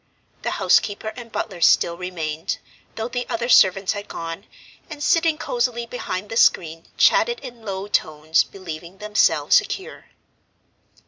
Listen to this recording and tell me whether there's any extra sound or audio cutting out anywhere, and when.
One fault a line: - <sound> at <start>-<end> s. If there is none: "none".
none